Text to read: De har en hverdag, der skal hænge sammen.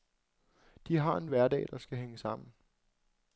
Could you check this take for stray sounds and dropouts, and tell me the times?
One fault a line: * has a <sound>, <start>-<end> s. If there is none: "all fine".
all fine